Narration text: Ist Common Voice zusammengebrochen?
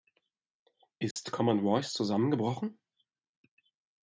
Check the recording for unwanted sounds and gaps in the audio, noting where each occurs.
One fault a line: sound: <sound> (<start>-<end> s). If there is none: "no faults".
sound: dropout (1.1-1.2 s)